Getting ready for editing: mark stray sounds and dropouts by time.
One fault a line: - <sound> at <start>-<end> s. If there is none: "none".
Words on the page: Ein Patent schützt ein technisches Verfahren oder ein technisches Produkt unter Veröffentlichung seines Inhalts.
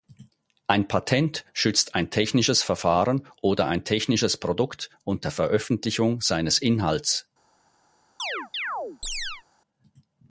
- chirp at 8.2-9.4 s